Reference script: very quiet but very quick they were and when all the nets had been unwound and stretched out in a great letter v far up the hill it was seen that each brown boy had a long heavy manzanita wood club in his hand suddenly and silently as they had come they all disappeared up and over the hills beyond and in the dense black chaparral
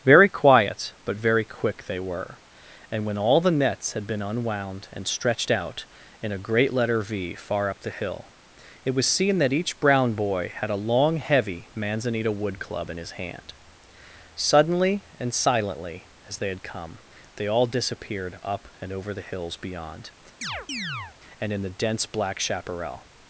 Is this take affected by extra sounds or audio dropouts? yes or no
yes